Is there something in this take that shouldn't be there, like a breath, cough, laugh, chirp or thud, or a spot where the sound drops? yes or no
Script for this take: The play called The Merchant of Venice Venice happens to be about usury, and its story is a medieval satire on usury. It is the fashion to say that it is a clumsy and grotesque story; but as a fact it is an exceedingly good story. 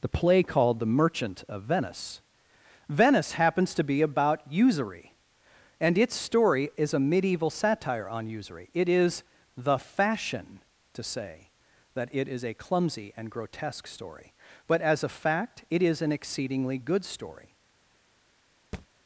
yes